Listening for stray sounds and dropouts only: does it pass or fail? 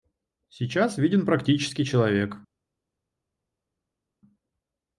pass